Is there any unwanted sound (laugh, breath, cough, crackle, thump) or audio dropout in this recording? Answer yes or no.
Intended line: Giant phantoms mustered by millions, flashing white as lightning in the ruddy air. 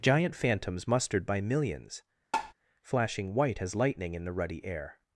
yes